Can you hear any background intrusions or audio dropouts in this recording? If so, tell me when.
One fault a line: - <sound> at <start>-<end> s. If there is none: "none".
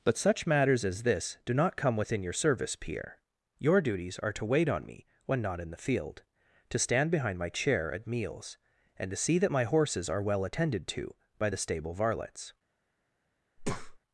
- breath at 13.6-14.0 s